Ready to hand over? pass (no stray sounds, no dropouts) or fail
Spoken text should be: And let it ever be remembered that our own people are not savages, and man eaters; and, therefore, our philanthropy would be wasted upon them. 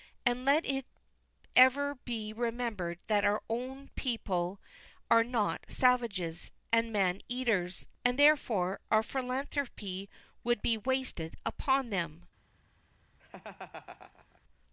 fail